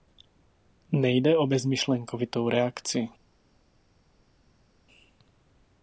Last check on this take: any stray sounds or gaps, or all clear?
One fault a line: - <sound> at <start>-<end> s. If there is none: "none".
none